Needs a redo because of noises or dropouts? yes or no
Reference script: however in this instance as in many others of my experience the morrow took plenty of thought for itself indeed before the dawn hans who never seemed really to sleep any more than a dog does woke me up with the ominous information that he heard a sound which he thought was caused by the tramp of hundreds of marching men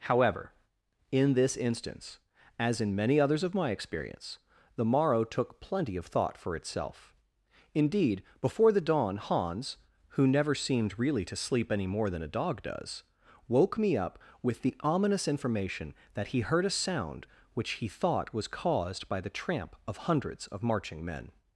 no